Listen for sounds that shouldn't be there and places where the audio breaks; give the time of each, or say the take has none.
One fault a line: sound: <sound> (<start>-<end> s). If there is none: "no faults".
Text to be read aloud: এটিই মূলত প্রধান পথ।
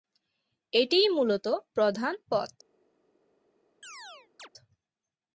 sound: chirp (3.8-4.5 s)